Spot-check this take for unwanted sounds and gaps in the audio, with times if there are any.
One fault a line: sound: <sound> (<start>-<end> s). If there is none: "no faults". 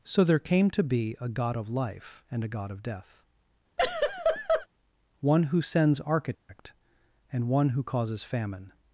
sound: laugh (3.8-4.7 s)
sound: dropout (6.3-6.5 s)